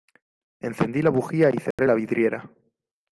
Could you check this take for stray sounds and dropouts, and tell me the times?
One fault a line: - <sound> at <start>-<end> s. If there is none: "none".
- dropout at 1.7-1.8 s